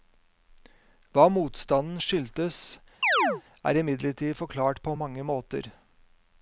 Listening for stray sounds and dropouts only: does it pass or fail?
fail